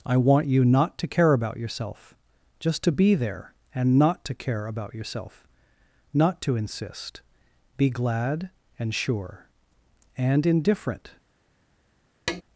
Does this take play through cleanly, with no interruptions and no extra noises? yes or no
no